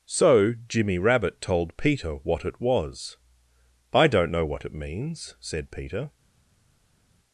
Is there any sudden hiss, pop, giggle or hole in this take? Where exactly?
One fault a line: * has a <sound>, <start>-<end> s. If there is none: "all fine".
all fine